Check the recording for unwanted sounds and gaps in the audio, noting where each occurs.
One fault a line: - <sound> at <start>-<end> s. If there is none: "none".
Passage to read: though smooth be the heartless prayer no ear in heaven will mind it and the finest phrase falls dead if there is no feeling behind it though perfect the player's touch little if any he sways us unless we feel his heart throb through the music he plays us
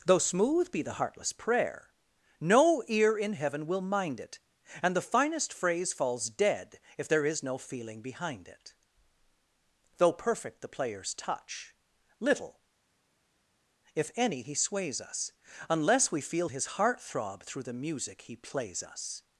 none